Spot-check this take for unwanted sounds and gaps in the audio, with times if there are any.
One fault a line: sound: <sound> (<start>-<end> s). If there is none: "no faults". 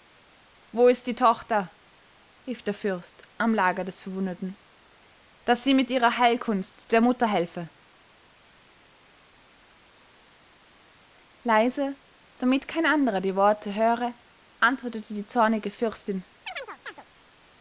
sound: chirp (16.5-17.0 s)